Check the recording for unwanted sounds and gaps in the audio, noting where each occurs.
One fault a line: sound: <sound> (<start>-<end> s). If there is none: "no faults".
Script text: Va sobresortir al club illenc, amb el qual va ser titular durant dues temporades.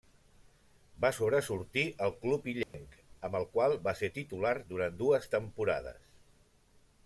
sound: dropout (2.6-2.7 s)